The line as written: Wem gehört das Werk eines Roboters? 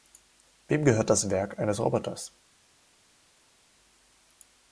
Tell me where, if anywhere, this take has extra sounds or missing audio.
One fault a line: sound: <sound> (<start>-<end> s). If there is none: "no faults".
no faults